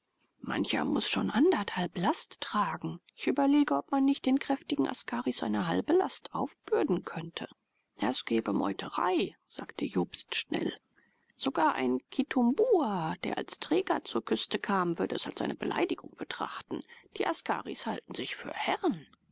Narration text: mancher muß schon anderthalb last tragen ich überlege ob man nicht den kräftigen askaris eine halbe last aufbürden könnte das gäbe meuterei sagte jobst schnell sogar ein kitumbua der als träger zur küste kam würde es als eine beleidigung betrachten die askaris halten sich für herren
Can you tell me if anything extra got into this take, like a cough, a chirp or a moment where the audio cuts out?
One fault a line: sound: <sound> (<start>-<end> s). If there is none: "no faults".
no faults